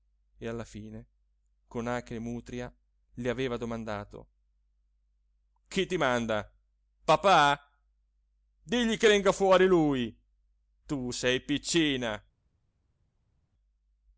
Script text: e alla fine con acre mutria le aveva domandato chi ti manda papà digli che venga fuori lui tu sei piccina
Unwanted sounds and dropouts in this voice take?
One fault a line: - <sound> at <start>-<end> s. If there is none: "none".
none